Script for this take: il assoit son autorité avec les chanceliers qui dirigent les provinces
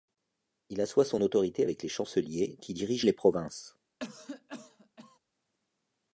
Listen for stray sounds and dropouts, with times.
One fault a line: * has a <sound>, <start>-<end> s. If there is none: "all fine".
* has a cough, 4.0-5.2 s